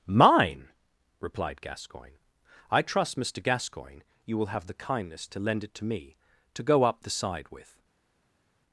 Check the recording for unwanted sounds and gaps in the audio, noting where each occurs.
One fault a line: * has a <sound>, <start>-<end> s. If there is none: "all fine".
all fine